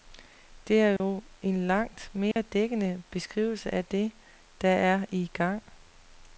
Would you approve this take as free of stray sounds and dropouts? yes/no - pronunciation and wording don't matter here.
no